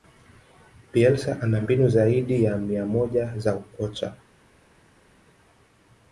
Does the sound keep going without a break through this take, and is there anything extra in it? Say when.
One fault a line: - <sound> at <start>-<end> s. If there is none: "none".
none